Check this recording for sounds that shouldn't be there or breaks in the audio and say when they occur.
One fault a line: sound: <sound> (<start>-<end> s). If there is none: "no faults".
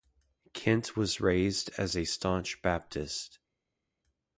no faults